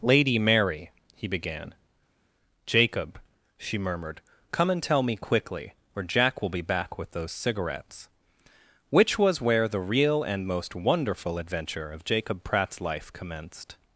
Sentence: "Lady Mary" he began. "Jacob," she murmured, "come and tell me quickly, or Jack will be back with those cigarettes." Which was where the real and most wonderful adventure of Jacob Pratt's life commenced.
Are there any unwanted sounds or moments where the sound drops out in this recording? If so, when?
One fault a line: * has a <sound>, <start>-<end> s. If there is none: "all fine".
all fine